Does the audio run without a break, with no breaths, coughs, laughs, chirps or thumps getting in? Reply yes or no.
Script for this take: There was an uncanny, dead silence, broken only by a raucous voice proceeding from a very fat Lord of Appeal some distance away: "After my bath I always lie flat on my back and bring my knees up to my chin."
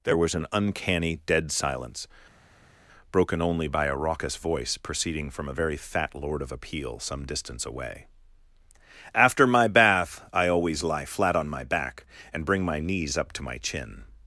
yes